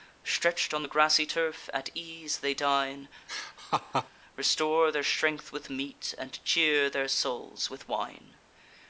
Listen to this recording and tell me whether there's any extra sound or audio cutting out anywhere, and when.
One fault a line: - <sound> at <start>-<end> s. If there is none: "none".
- laugh at 3.3-4.1 s